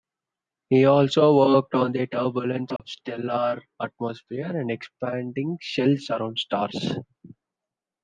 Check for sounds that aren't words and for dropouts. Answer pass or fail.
fail